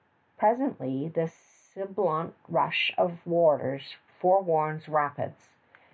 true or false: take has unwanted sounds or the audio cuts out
false